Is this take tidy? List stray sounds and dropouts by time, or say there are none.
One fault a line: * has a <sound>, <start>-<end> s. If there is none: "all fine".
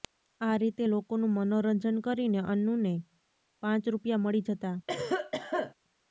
* has a cough, 4.9-5.7 s